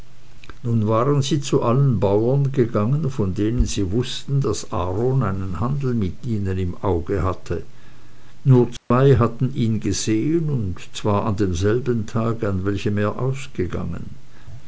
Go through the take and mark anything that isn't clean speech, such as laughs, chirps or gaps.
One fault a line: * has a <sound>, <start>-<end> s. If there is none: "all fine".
* has a dropout, 8.8-8.9 s